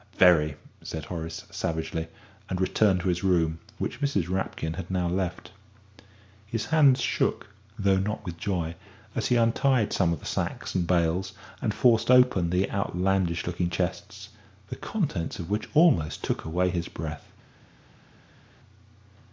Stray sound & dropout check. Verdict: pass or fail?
pass